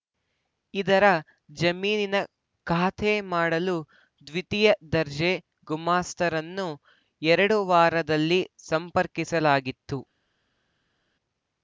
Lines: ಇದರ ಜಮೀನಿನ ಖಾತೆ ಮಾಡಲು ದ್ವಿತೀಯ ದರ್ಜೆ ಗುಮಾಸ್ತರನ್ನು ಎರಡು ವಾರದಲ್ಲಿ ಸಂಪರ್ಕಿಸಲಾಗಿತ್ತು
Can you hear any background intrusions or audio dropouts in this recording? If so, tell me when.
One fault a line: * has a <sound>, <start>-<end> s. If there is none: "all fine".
all fine